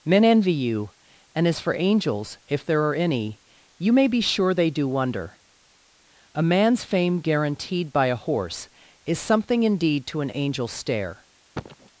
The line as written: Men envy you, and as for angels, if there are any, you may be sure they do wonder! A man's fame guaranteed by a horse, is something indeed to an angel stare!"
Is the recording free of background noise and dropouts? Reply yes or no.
no